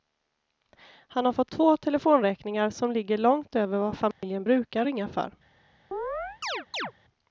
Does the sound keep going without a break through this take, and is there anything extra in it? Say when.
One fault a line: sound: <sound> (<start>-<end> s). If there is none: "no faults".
sound: dropout (4.1-4.2 s)
sound: chirp (5.9-6.9 s)